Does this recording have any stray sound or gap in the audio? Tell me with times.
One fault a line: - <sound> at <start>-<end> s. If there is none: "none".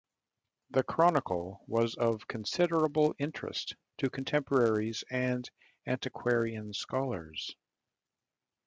none